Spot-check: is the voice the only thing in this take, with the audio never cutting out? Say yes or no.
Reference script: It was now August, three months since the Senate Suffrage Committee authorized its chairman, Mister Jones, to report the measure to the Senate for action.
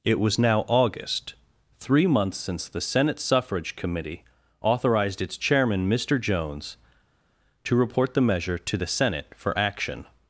yes